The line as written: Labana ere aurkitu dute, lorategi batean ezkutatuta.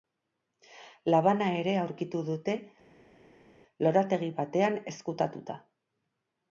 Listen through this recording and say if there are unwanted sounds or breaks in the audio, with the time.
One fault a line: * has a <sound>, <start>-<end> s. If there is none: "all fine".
all fine